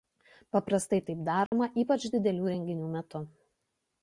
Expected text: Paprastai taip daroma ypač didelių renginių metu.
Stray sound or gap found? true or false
true